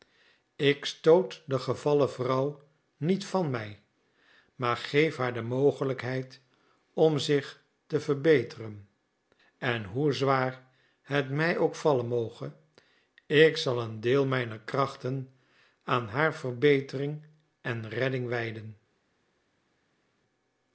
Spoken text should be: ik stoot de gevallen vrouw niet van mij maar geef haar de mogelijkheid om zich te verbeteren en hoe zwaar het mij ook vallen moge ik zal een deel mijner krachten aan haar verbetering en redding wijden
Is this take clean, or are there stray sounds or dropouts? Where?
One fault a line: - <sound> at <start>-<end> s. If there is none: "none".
none